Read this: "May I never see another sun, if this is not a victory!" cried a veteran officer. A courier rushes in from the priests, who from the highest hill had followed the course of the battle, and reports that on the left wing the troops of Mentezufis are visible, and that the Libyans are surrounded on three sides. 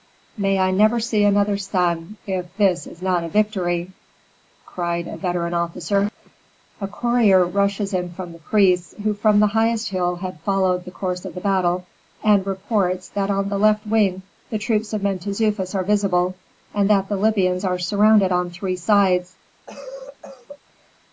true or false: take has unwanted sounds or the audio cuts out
true